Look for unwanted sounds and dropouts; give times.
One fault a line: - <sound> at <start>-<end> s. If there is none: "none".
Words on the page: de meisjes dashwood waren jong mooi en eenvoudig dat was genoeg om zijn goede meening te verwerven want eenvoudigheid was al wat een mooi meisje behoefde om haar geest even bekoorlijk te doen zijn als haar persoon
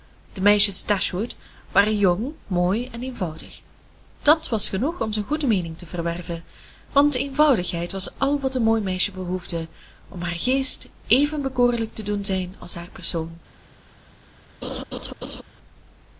- laugh at 14.6-15.4 s